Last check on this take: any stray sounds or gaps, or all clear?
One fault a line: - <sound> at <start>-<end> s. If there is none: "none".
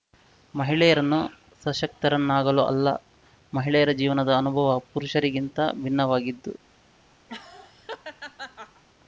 - laugh at 7.3-8.8 s